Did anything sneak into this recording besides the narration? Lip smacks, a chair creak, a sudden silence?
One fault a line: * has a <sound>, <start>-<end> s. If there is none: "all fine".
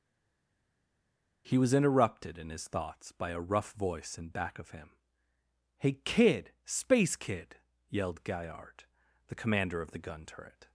all fine